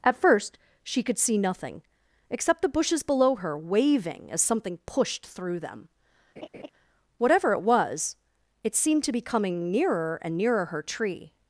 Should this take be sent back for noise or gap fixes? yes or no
yes